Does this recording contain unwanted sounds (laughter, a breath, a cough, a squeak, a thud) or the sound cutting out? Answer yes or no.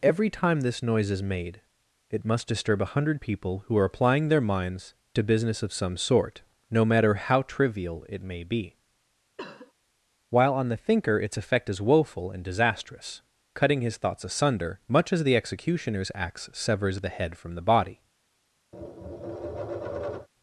yes